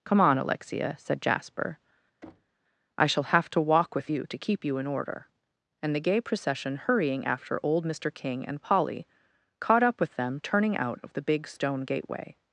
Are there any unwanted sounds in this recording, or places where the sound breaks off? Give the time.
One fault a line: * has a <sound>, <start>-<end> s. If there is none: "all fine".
* has a thud, 2.2-2.6 s